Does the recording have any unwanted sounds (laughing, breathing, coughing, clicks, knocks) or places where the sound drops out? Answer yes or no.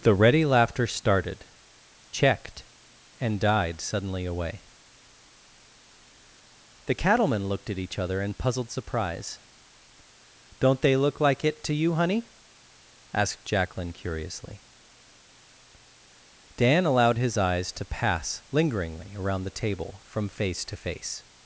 no